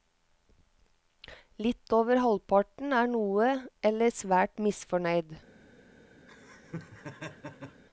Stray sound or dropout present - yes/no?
yes